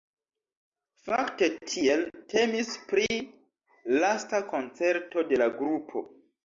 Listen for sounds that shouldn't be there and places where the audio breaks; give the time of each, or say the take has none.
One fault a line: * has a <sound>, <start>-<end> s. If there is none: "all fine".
all fine